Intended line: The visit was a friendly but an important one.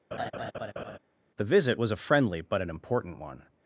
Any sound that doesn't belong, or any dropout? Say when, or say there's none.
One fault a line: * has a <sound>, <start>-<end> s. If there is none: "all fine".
* has a laugh, 0.1-1.0 s